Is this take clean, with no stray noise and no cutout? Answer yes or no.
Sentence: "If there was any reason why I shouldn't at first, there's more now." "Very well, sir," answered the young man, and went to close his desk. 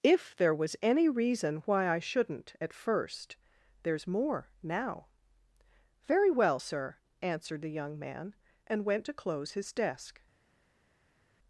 yes